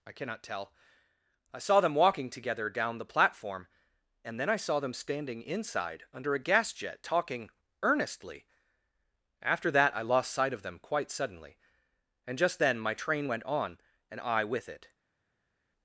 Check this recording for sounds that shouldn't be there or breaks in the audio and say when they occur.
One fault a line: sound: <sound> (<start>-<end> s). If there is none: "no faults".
no faults